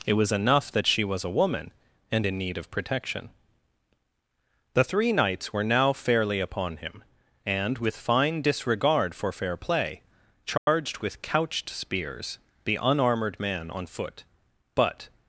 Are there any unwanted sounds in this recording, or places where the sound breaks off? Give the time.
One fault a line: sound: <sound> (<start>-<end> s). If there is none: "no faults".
sound: dropout (10.6-10.7 s)